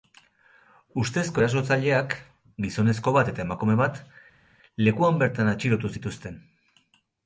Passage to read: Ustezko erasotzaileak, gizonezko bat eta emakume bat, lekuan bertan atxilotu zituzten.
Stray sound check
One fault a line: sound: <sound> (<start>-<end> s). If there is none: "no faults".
no faults